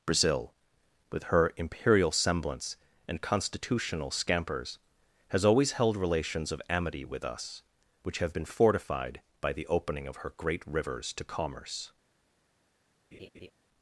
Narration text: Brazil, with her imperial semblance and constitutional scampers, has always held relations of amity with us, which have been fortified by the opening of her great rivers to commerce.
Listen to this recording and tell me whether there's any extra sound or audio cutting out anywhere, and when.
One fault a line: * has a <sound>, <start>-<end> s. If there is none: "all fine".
* has a laugh, 13.1-13.5 s